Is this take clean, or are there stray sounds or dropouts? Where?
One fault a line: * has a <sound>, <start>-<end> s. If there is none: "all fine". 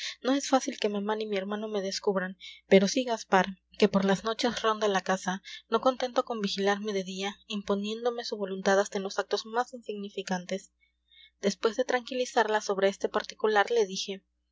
all fine